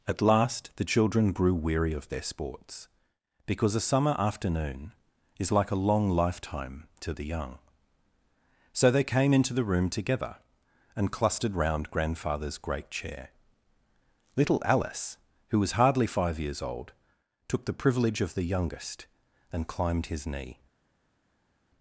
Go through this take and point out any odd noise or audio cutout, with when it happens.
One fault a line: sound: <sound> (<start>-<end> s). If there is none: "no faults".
no faults